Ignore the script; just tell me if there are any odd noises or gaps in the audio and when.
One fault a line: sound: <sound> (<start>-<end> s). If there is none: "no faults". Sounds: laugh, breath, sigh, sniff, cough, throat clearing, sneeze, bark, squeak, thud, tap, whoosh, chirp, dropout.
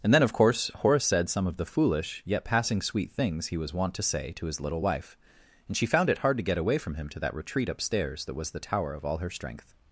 no faults